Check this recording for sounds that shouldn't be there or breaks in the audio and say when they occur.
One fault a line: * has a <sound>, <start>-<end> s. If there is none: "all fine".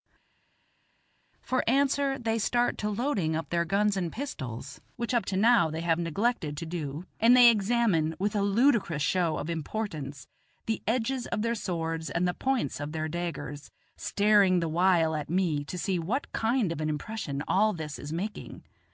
all fine